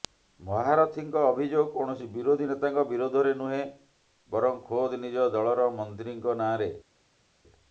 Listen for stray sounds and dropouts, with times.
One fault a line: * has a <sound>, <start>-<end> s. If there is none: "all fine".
all fine